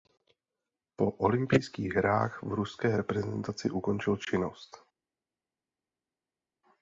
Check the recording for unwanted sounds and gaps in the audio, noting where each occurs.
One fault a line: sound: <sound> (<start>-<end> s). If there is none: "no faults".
no faults